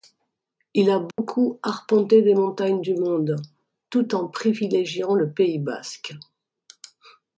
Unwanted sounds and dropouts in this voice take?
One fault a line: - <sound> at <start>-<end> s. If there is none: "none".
- dropout at 1.1-1.2 s